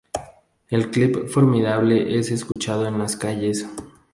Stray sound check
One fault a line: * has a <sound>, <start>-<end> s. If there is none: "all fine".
* has a dropout, 2.5-2.6 s